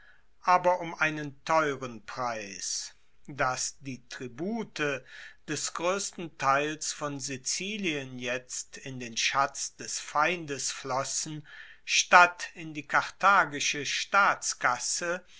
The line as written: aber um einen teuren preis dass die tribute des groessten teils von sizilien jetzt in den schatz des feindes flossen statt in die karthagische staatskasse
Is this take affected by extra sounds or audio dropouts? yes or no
no